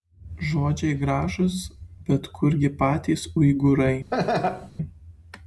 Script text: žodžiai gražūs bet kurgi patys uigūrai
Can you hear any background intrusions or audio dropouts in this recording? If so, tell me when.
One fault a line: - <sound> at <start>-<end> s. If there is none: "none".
- laugh at 4.1-4.7 s